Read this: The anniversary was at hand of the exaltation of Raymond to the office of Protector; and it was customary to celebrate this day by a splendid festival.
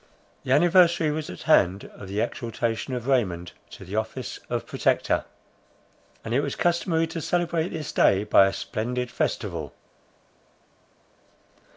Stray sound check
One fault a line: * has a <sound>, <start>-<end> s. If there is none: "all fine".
all fine